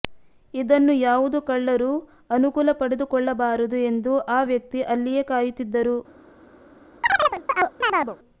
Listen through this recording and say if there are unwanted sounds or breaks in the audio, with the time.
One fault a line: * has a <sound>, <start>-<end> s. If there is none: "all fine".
* has a chirp, 7.0-8.2 s